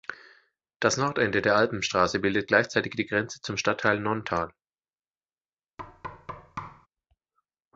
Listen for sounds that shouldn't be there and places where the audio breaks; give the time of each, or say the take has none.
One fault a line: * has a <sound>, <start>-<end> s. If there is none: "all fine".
* has a thud, 5.8-6.9 s